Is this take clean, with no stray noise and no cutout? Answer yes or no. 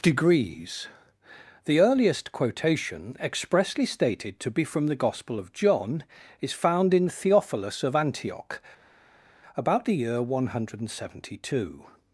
yes